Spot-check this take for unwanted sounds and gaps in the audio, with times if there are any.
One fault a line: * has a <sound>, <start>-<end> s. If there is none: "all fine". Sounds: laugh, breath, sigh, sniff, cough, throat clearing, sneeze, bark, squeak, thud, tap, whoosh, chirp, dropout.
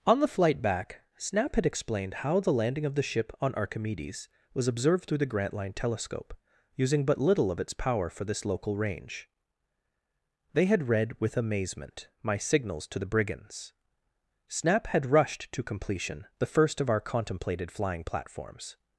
all fine